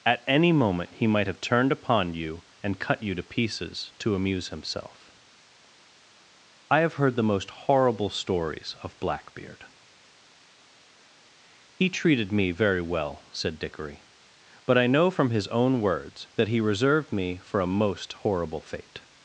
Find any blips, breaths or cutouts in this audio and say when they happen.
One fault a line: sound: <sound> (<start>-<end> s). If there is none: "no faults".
no faults